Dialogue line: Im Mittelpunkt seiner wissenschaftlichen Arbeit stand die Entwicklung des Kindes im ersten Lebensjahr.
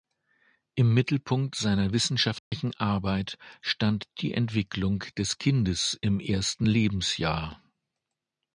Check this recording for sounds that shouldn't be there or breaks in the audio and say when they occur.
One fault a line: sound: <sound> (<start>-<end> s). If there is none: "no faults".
sound: dropout (2.4-2.5 s)